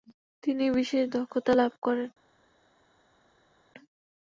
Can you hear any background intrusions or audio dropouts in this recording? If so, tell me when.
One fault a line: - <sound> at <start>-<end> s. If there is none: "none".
none